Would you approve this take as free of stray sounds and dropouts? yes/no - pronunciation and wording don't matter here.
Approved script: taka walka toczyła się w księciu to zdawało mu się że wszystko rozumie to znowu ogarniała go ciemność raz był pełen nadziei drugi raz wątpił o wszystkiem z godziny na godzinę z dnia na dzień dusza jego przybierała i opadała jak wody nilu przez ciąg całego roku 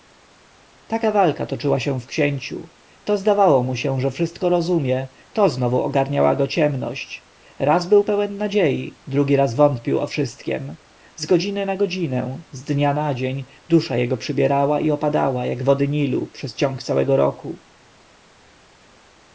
yes